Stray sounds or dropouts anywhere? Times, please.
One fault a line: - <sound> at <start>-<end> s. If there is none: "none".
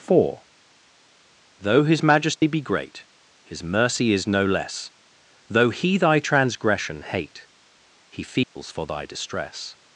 - dropout at 2.4-2.4 s
- dropout at 8.4-8.6 s